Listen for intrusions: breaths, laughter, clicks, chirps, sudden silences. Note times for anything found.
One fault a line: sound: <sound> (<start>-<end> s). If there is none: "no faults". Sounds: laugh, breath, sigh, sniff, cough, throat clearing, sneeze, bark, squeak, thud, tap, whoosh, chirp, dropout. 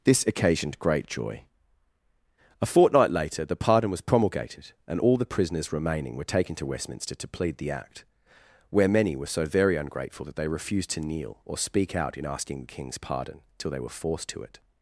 no faults